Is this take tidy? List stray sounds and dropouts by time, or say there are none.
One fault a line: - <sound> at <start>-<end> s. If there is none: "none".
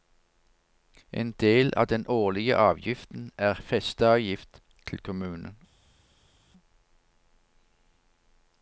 none